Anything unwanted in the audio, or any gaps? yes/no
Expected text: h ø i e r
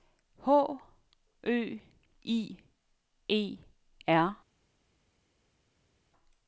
no